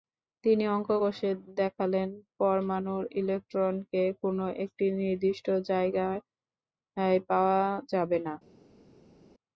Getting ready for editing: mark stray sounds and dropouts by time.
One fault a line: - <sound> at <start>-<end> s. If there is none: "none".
none